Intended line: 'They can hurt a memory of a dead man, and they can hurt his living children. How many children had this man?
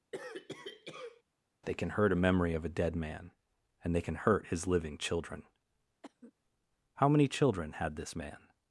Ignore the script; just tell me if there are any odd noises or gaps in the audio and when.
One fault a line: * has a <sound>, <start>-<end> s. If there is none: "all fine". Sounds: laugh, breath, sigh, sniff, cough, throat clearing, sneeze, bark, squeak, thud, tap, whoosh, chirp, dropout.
* has a cough, 0.1-1.2 s
* has a cough, 6.0-6.3 s